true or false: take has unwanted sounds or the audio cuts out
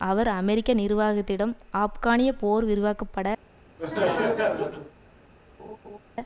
true